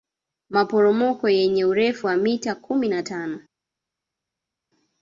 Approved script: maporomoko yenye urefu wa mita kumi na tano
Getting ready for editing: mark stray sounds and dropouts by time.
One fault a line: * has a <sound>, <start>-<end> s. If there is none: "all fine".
all fine